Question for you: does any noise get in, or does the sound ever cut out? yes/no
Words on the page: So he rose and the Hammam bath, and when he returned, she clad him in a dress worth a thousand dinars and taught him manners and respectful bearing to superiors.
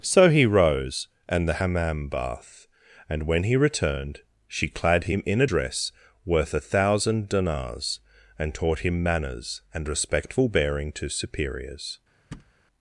yes